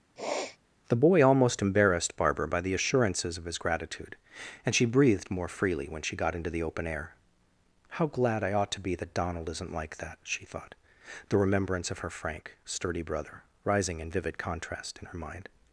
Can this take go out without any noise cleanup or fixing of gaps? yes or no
no